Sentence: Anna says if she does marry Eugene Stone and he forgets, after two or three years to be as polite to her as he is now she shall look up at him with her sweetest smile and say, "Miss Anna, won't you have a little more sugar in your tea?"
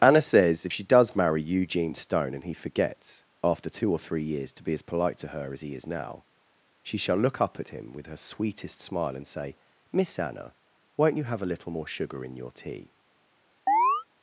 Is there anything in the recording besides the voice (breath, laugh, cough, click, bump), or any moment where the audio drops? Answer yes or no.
yes